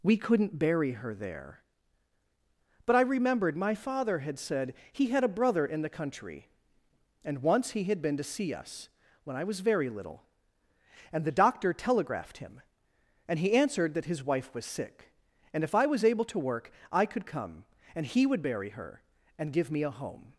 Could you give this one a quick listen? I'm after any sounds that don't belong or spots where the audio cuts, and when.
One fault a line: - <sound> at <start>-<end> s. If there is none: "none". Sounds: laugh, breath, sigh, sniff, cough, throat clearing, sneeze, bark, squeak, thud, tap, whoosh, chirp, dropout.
none